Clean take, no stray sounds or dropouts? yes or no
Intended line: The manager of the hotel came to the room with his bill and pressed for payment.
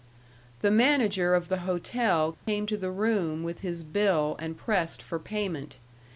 no